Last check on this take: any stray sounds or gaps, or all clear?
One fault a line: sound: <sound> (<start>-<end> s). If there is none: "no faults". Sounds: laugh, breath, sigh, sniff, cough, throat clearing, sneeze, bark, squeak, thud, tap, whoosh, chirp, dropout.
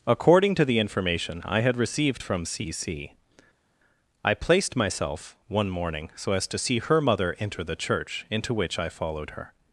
no faults